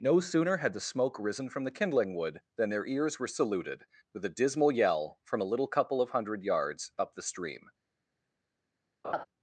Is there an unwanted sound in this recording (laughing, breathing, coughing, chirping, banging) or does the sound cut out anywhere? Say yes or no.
yes